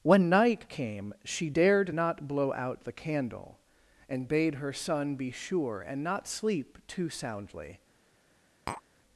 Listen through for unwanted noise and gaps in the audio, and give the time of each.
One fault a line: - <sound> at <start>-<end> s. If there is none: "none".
- tap at 8.7-8.8 s